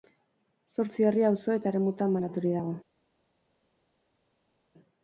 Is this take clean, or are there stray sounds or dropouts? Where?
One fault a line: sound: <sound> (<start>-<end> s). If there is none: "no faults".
no faults